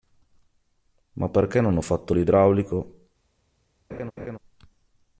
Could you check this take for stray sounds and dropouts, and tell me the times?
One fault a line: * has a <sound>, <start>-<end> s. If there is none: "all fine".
* has a laugh, 3.9-4.4 s